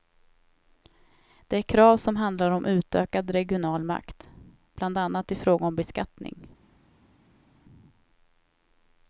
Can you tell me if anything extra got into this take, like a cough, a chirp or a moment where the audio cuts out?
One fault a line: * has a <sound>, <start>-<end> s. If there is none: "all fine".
all fine